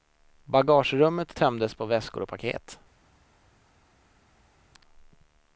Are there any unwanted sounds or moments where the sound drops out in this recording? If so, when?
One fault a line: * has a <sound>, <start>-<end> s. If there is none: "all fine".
all fine